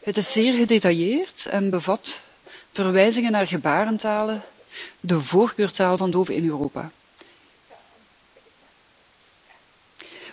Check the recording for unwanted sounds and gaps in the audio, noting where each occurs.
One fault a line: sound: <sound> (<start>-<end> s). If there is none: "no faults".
no faults